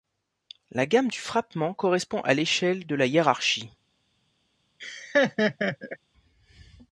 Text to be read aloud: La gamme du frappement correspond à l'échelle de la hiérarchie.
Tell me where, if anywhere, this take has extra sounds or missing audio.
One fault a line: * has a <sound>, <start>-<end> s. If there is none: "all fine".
* has a laugh, 4.8-6.0 s